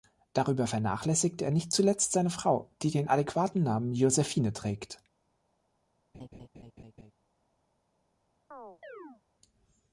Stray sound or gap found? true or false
true